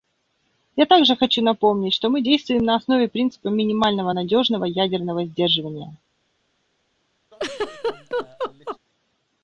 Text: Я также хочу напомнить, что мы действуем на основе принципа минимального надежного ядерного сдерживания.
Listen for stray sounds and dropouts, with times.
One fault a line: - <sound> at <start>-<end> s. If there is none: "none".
- laugh at 7.3-8.8 s